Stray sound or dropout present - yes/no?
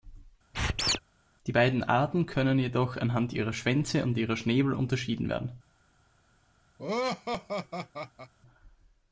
yes